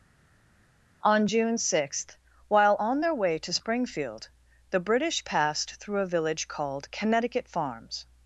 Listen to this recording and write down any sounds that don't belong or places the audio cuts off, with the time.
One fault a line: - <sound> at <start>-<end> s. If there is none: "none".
none